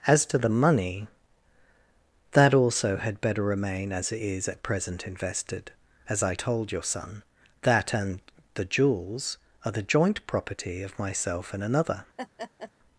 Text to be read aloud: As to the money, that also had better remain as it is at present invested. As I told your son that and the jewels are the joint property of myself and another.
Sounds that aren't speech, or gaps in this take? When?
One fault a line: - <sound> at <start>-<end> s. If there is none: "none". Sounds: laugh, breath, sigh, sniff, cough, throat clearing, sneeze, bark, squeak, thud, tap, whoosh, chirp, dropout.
- laugh at 12.2-12.7 s